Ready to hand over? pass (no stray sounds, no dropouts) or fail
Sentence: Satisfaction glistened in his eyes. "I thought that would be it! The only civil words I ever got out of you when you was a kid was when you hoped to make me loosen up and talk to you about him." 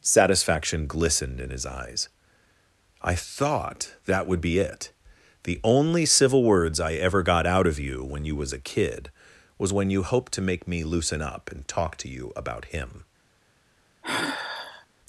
fail